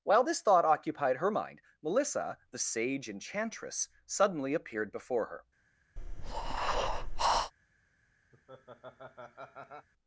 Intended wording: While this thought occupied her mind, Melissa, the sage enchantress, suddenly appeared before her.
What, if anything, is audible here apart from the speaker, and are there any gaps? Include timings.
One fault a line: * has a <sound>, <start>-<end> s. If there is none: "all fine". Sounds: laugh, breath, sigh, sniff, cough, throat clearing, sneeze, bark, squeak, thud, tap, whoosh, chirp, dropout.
* has a breath, 6.0-7.5 s
* has a laugh, 8.3-9.9 s